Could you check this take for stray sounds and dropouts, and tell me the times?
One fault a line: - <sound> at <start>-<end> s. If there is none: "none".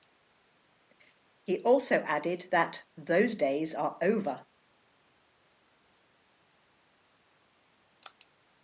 none